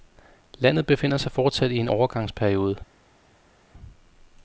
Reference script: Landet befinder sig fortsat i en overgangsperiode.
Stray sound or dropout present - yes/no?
no